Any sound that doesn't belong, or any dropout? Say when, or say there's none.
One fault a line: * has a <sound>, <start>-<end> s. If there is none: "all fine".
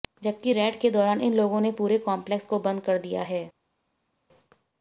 all fine